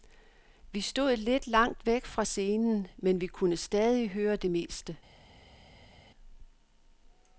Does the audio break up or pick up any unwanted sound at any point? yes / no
no